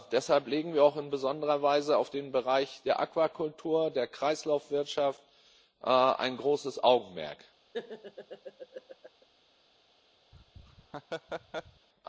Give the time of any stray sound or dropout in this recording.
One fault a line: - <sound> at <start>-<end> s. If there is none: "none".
- laugh at 7.7-9.3 s
- laugh at 10.3-11.9 s